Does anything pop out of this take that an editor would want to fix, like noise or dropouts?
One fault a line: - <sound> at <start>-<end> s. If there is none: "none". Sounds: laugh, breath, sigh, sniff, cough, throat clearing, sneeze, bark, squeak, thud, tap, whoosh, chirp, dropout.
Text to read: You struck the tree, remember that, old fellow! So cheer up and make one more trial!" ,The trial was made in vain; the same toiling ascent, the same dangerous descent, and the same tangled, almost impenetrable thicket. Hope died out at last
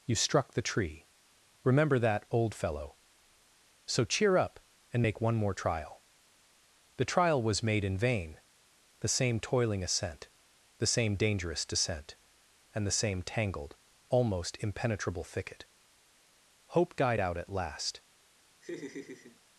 - laugh at 18.6-19.4 s